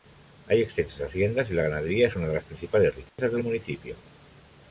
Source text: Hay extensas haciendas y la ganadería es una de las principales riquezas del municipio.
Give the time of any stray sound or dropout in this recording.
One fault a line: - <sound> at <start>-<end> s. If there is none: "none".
- dropout at 3.1-3.2 s